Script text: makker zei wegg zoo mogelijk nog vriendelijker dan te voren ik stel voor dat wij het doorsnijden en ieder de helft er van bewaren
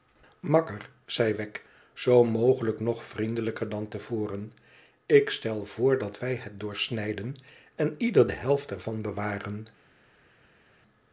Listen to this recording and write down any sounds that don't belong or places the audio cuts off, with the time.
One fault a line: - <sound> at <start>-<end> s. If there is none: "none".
none